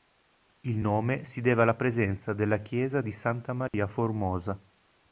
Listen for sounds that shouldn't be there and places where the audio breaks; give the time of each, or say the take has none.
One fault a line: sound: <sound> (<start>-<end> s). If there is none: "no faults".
sound: dropout (3.7-3.7 s)